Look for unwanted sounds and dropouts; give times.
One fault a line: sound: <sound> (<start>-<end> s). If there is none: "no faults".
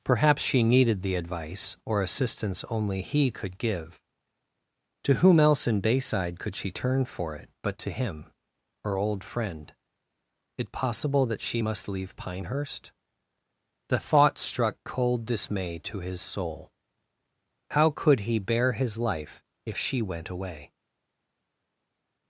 no faults